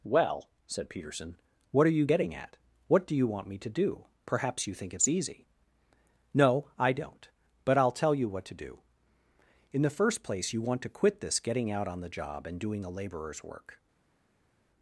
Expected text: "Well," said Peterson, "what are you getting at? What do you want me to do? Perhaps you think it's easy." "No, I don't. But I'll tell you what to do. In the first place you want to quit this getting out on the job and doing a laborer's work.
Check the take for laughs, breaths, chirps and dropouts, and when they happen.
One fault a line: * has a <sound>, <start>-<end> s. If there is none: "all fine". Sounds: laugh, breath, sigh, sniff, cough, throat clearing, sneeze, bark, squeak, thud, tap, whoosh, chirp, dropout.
all fine